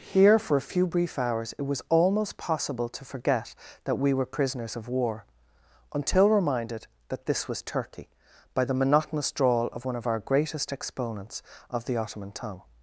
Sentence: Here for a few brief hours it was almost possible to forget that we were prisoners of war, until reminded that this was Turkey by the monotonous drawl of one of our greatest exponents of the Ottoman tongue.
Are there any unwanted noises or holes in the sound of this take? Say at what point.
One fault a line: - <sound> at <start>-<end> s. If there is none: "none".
none